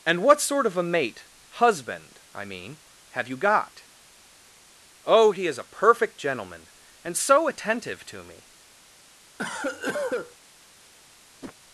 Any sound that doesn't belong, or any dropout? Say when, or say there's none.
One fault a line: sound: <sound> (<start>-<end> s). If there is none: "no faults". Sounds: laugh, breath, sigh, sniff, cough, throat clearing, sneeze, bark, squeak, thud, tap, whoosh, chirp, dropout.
sound: cough (9.4-10.4 s)
sound: whoosh (11.4-11.6 s)